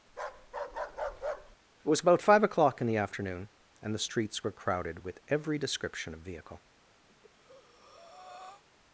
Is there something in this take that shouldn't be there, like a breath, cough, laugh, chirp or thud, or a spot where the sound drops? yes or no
yes